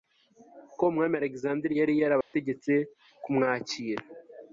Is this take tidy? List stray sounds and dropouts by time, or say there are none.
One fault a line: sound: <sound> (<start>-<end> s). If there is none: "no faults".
sound: dropout (2.2-2.3 s)